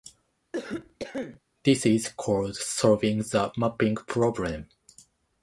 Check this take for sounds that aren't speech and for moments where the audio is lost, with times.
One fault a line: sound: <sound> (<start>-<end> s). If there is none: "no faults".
sound: cough (0.5-1.4 s)